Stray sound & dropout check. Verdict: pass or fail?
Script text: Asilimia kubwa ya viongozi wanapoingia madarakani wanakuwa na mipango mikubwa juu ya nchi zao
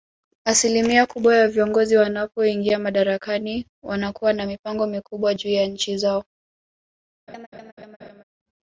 fail